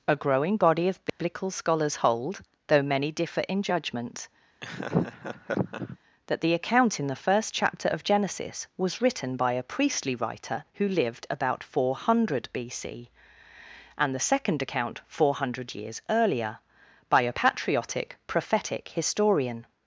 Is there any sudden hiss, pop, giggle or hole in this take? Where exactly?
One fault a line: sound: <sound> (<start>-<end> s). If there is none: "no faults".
sound: dropout (1.1-1.2 s)
sound: laugh (4.6-6.0 s)